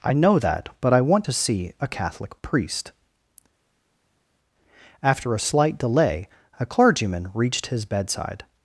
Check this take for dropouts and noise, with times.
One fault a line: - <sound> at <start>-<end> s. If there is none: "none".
none